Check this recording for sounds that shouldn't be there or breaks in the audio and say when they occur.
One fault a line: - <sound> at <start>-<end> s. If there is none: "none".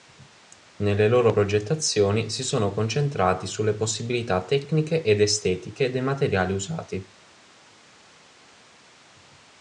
none